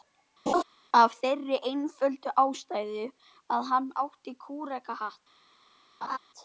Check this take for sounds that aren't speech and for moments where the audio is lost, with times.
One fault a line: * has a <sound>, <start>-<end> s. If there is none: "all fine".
* has a laugh, 0.5-0.6 s
* has a laugh, 6.0-6.2 s